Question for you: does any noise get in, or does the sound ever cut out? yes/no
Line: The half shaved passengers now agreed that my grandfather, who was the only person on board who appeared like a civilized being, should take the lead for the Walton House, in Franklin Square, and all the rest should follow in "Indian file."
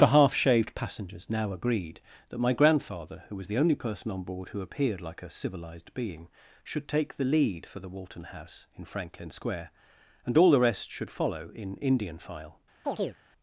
yes